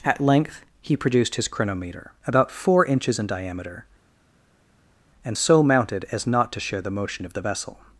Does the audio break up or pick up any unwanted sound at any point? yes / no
no